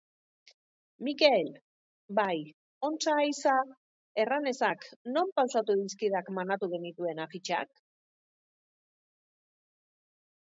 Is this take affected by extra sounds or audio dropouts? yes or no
no